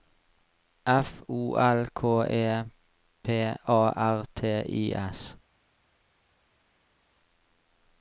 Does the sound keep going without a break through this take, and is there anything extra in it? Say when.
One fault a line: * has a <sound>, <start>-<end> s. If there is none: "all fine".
all fine